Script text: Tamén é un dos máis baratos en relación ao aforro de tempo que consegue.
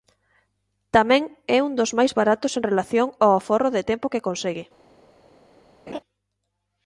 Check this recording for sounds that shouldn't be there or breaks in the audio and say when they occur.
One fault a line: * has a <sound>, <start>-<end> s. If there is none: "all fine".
* has a laugh, 5.9-6.0 s